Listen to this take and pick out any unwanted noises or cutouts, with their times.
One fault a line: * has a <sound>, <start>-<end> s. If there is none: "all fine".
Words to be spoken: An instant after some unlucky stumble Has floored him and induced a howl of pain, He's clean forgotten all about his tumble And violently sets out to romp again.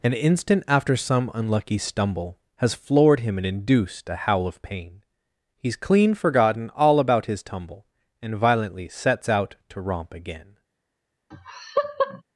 * has a laugh, 11.3-12.2 s